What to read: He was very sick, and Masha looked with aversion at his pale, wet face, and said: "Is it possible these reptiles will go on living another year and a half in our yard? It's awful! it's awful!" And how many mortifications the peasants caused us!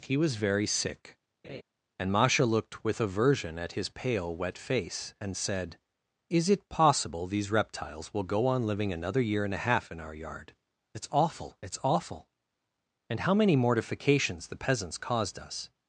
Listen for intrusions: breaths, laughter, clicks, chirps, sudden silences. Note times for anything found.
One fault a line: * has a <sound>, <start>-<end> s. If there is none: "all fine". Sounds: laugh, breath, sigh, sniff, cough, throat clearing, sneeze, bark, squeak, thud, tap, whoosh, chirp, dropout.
* has a laugh, 1.4-1.6 s